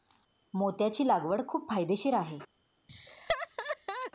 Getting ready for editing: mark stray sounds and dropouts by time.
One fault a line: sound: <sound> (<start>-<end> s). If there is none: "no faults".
sound: laugh (2.9-4.1 s)